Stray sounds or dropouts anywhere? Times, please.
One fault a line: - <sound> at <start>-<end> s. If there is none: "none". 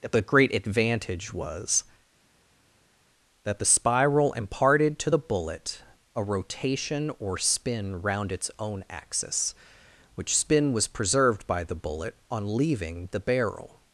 none